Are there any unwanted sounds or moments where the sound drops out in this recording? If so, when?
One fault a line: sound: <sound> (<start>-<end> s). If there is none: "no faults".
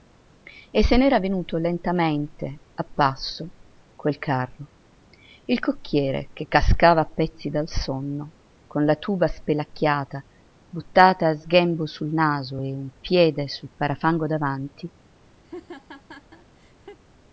sound: laugh (15.4-17.0 s)